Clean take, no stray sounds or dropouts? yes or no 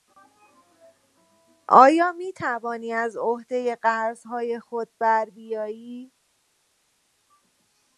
yes